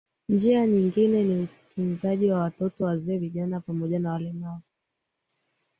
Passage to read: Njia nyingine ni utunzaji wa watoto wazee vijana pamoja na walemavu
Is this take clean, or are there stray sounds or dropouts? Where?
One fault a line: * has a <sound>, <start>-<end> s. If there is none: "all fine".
all fine